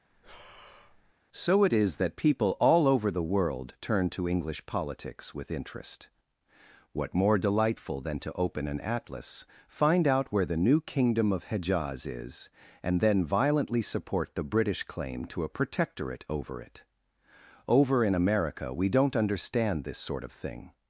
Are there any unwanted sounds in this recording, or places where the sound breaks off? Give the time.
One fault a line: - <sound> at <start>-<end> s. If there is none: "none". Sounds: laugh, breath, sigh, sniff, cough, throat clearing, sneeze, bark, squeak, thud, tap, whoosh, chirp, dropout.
- breath at 0.1-1.1 s